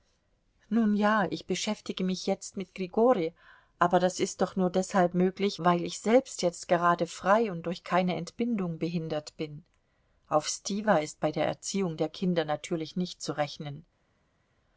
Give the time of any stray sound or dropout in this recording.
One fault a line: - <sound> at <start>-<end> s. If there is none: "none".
none